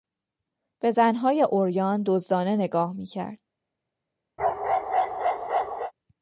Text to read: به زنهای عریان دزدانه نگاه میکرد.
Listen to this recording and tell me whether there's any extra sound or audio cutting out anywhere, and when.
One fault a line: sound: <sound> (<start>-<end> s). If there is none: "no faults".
sound: bark (4.4-5.9 s)